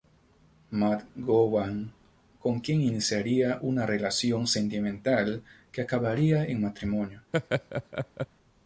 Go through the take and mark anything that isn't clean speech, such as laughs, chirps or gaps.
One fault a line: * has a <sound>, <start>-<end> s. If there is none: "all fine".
* has a laugh, 7.3-8.3 s